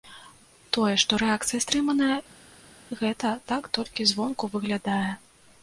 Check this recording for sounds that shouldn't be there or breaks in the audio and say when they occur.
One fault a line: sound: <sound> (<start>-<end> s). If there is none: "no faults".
no faults